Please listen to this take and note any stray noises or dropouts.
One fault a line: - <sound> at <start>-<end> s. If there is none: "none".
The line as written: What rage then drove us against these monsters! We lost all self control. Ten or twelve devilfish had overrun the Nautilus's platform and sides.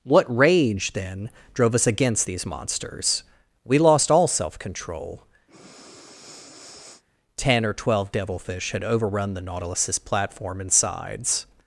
- breath at 5.5-7.0 s